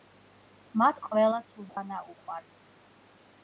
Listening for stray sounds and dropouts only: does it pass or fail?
fail